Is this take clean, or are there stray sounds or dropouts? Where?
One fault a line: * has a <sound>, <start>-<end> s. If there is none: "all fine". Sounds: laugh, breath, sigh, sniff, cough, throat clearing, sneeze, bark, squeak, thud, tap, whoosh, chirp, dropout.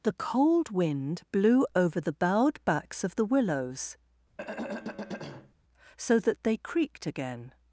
* has a throat clearing, 4.4-5.5 s